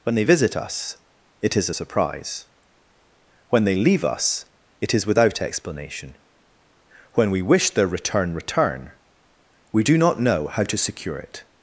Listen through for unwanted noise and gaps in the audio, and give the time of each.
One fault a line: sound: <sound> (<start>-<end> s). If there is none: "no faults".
no faults